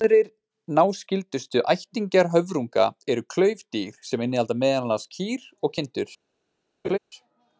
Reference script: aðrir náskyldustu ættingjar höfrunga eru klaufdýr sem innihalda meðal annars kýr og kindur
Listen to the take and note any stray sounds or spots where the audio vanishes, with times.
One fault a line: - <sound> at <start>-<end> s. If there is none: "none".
- laugh at 6.8-7.0 s